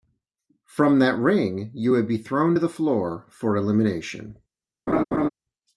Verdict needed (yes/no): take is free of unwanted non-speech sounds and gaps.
no